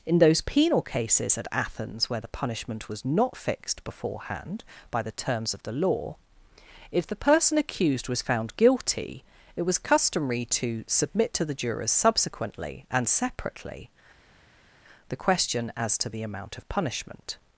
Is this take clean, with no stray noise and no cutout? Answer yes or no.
yes